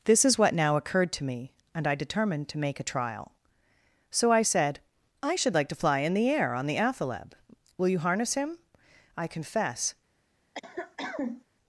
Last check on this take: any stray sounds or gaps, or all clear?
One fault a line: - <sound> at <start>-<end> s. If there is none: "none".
- cough at 10.5-11.4 s